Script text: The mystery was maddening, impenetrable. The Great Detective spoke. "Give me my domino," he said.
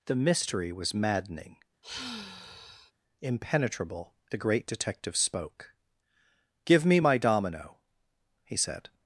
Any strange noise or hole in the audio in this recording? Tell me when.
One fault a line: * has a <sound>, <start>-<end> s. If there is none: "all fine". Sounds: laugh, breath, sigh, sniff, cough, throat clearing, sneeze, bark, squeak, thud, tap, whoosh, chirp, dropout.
* has a sigh, 1.8-2.9 s